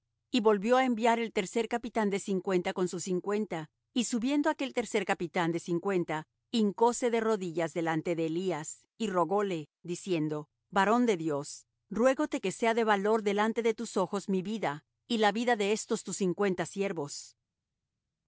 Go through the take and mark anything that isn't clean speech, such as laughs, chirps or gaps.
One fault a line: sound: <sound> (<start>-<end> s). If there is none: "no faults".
no faults